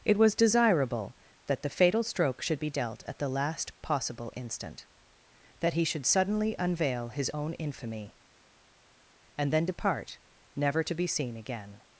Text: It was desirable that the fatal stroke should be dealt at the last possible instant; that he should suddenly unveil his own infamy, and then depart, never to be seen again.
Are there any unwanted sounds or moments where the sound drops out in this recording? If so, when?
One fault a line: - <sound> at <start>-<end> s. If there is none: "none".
none